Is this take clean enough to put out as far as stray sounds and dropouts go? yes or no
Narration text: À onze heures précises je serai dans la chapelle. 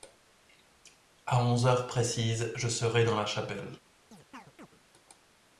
no